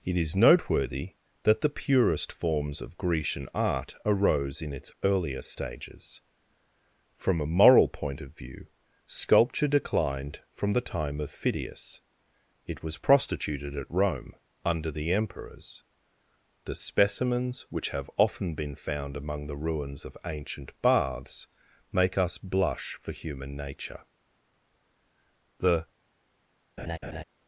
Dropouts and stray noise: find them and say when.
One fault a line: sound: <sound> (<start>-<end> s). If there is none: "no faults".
sound: laugh (26.8-27.2 s)